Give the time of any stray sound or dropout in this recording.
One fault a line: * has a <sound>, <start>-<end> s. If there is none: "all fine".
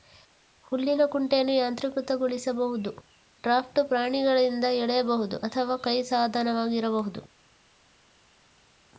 all fine